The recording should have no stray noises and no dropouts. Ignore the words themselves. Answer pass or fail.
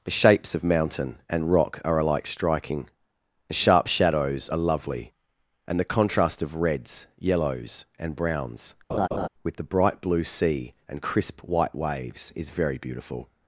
fail